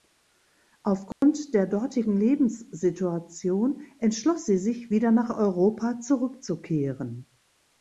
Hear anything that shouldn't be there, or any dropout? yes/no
yes